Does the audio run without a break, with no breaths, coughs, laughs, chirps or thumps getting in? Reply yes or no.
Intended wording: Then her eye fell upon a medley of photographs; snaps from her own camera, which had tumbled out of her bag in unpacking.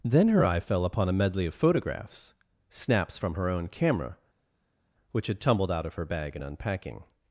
yes